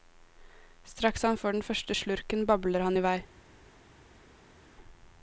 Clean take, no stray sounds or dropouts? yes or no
yes